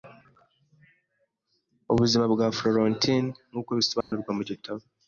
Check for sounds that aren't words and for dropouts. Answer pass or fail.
fail